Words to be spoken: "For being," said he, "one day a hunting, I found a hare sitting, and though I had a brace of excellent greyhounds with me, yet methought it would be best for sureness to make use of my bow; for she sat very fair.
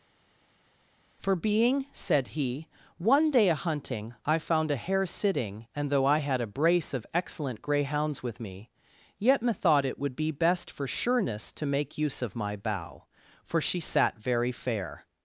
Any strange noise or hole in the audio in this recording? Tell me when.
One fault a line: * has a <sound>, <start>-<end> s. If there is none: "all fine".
all fine